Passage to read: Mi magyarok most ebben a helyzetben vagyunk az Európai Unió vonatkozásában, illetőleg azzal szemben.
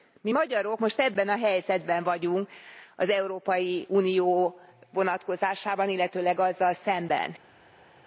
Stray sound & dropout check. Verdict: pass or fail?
pass